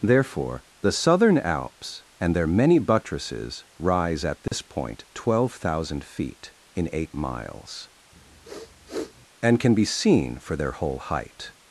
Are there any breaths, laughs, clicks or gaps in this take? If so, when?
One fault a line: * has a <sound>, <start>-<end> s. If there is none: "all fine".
* has a dropout, 4.5-4.5 s
* has a sniff, 8.1-9.3 s